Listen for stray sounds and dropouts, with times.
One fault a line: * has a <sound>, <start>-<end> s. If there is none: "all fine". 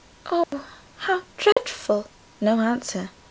* has a dropout, 0.4-0.5 s
* has a dropout, 1.5-1.6 s